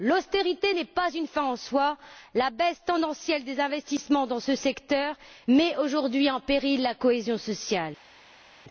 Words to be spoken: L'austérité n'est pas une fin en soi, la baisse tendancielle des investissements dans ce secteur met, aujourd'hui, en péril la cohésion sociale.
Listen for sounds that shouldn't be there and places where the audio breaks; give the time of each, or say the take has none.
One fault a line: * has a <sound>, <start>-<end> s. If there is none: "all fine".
all fine